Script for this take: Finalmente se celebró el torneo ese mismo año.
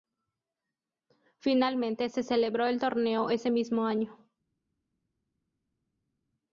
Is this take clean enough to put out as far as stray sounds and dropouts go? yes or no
yes